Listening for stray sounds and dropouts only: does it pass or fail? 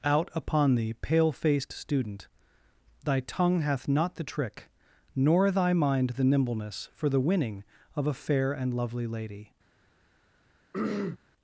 fail